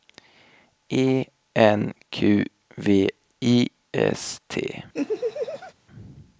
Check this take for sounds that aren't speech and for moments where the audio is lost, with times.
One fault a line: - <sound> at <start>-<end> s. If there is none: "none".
- laugh at 4.9-5.7 s